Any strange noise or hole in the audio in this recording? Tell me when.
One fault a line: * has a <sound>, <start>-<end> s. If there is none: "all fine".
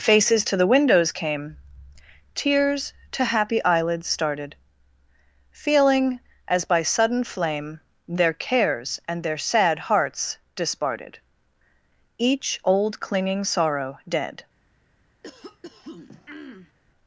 * has a throat clearing, 15.2-16.7 s